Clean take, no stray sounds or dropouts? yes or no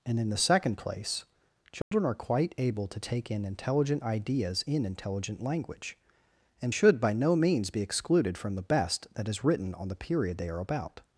no